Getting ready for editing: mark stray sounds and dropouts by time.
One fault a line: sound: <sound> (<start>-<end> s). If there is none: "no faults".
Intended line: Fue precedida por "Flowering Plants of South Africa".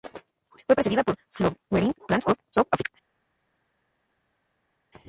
no faults